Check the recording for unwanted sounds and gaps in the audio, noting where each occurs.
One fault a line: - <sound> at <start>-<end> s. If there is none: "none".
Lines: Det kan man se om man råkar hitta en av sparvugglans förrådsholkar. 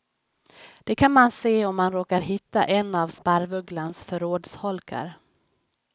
none